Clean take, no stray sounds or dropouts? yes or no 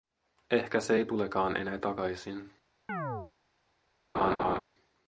no